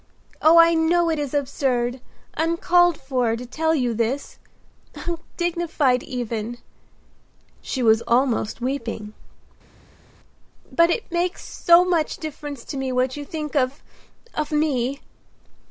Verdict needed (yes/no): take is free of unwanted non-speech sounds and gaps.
yes